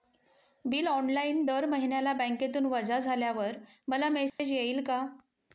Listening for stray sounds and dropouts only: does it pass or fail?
fail